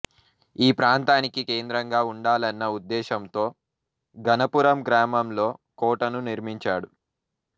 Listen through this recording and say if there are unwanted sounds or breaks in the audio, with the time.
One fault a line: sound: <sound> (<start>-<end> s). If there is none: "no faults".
no faults